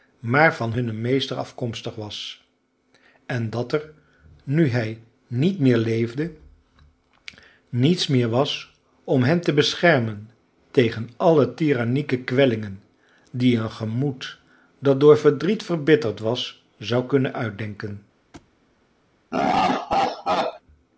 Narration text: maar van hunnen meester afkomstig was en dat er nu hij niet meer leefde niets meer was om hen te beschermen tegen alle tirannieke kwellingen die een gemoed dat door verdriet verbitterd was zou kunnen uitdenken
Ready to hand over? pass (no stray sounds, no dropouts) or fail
fail